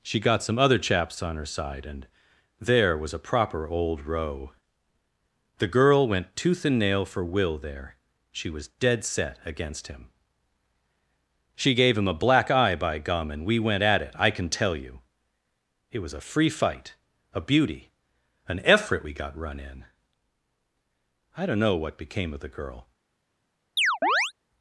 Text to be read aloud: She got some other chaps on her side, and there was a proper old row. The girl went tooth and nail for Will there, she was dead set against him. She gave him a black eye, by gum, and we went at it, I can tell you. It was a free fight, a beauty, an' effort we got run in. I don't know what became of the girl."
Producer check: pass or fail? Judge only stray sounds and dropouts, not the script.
fail